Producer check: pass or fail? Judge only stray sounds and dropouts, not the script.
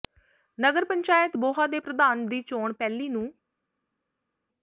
pass